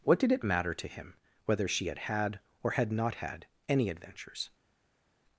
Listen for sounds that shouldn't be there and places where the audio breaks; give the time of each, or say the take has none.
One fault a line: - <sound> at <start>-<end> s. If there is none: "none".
none